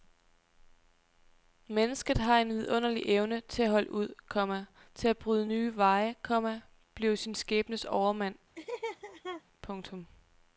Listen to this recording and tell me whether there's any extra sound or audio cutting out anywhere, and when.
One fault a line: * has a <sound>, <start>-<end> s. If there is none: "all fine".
* has a laugh, 8.6-9.4 s